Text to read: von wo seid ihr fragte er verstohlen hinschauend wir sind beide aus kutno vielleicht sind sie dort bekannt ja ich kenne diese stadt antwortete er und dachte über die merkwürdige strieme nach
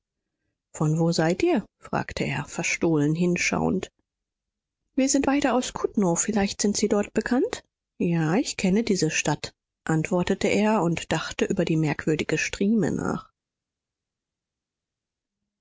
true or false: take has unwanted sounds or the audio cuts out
false